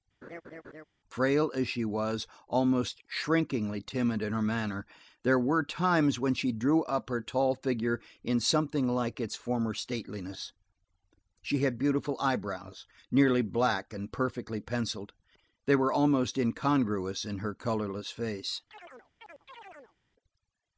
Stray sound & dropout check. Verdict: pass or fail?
fail